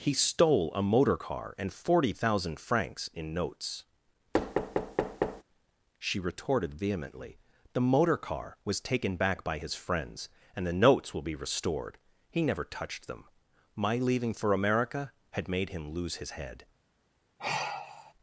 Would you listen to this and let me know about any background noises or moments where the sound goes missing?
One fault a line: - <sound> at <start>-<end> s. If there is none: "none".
- thud at 4.3-5.4 s
- sigh at 17.4-18.1 s